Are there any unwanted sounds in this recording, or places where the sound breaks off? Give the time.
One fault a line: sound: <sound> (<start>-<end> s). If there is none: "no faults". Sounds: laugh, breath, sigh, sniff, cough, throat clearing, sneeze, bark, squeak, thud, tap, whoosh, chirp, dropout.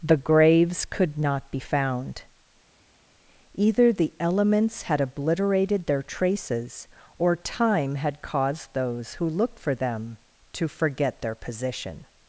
no faults